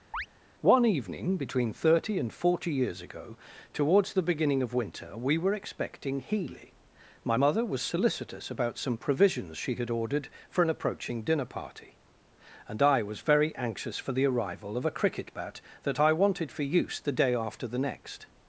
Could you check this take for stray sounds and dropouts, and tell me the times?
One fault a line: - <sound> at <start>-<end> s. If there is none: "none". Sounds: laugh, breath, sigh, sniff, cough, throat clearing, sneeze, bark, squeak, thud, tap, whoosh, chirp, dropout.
- chirp at 0.1-0.3 s